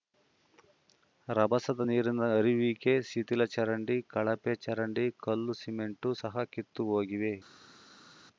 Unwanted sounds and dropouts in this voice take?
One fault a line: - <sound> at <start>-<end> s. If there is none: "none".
none